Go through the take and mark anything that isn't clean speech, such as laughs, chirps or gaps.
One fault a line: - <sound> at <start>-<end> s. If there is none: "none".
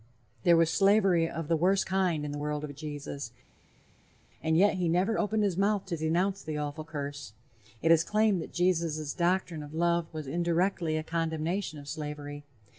none